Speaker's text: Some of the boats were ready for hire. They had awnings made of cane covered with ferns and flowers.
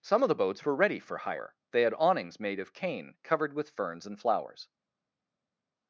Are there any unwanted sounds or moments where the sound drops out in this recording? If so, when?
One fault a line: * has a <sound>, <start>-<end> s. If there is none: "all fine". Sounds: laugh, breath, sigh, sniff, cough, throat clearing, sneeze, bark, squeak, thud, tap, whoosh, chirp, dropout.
all fine